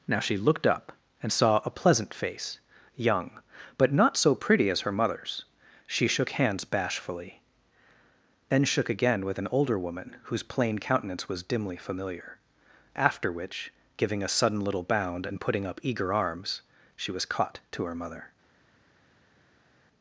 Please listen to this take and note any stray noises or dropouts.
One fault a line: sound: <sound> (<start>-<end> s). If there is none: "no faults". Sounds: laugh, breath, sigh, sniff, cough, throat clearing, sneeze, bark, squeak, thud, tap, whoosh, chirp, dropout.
no faults